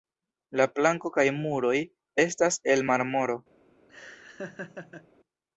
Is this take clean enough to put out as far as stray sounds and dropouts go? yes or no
no